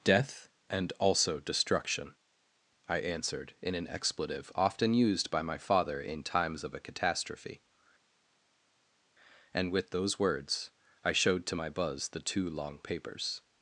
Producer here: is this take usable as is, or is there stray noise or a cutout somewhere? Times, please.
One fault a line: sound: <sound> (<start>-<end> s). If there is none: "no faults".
no faults